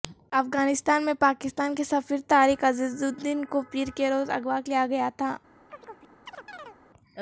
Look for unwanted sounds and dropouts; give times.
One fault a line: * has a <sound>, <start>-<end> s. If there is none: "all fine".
* has a chirp, 5.7-6.8 s